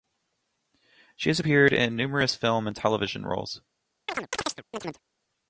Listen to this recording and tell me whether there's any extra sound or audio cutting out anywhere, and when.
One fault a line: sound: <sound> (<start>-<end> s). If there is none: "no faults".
sound: chirp (4.1-5.0 s)